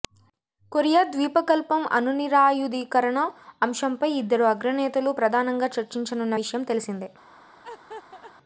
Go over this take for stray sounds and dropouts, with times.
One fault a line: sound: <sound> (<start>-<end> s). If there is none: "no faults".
sound: laugh (7.6-8.3 s)